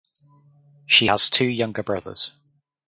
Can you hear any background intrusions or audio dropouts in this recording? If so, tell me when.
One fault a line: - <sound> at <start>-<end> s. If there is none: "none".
none